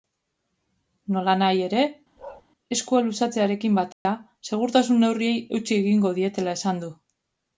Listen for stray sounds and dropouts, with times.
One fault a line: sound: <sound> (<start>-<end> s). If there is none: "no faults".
sound: bark (2.2-2.4 s)
sound: dropout (3.9-4.1 s)